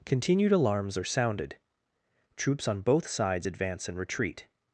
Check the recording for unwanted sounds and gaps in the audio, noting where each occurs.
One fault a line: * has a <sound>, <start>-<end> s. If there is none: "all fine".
all fine